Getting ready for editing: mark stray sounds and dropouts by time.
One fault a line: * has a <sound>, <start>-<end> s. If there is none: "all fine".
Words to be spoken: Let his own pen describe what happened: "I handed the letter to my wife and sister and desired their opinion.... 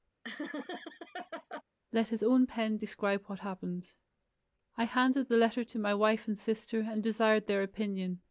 * has a laugh, 0.2-1.6 s